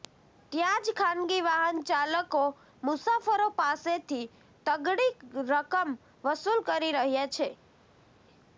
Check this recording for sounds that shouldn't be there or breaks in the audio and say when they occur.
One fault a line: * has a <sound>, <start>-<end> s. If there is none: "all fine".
all fine